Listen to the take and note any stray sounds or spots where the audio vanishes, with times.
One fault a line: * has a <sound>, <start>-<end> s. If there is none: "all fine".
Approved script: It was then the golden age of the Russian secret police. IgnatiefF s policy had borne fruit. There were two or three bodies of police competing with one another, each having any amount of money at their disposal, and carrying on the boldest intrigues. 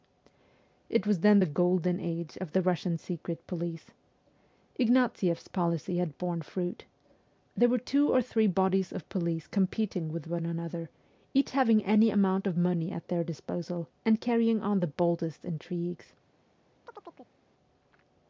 * has a chirp, 16.9-17.3 s